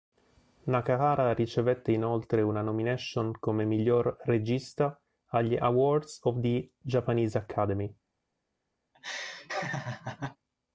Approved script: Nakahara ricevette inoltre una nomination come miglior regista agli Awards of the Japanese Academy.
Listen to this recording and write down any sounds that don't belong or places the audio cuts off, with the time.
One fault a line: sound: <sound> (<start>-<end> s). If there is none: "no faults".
sound: laugh (8.9-10.4 s)